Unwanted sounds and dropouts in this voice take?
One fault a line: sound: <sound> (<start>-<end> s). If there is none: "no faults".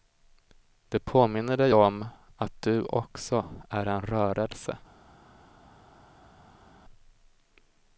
no faults